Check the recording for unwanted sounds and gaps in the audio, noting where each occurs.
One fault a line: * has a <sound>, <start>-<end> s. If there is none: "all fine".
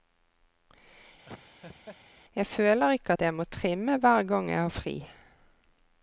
* has a laugh, 1.3-2.0 s